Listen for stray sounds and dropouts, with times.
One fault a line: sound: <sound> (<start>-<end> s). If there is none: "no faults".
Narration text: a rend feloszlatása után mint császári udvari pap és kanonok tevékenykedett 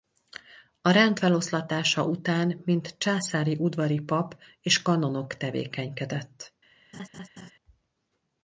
sound: laugh (6.9-7.5 s)